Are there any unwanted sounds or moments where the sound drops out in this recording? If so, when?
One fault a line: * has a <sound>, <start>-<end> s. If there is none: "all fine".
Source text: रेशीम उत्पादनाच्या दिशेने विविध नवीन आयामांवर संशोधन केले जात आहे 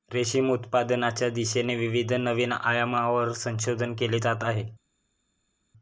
all fine